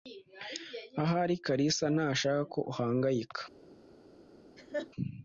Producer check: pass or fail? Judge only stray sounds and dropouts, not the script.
fail